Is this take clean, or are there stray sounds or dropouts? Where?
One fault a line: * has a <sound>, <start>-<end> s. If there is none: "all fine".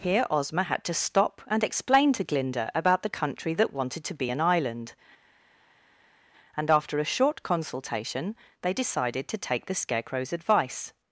all fine